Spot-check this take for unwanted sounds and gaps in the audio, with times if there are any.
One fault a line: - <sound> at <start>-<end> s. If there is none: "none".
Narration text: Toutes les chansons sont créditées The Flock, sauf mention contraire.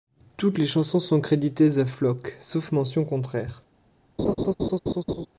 - laugh at 4.2-5.3 s